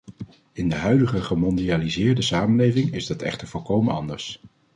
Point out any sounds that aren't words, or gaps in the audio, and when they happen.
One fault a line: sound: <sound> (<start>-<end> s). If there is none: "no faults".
no faults